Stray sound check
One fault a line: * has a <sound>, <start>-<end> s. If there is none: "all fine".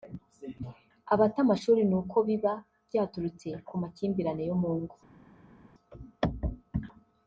all fine